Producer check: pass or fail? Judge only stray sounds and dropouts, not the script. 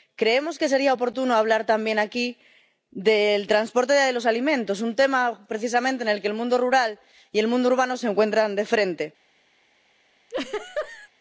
fail